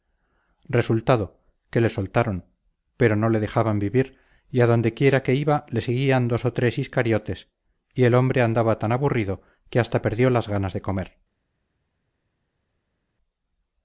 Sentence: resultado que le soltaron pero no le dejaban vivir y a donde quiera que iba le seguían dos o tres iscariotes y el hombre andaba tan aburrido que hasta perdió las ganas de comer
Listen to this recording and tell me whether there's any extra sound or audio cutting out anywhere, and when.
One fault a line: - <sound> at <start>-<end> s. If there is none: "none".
none